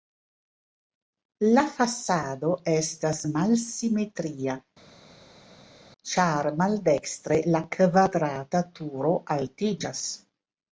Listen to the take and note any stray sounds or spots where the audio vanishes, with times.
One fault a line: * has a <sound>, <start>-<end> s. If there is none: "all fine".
all fine